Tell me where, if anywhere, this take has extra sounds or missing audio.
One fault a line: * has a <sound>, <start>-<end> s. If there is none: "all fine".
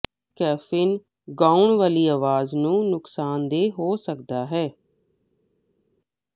all fine